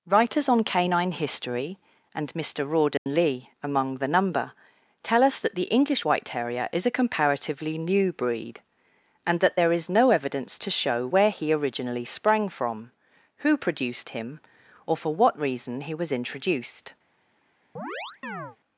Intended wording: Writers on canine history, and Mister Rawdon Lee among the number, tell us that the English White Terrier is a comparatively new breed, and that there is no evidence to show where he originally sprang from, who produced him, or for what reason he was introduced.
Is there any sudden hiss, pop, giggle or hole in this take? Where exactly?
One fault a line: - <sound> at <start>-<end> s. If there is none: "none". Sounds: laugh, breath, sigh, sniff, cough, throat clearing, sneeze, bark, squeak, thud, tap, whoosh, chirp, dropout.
- dropout at 3.0-3.1 s
- chirp at 17.8-18.6 s